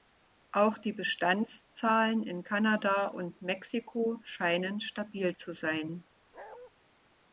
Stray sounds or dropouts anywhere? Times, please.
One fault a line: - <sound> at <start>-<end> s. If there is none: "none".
- bark at 6.3-6.7 s